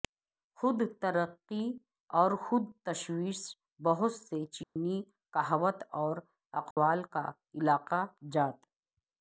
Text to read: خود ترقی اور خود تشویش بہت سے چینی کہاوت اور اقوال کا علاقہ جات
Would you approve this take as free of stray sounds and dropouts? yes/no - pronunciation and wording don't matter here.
no